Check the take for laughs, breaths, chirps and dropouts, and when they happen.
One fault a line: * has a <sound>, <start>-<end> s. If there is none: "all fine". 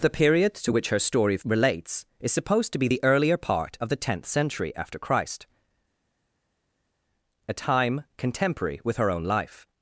all fine